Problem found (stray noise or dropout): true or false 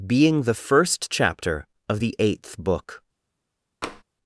true